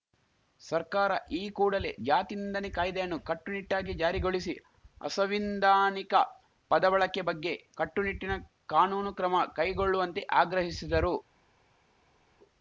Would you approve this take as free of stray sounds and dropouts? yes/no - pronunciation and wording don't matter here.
yes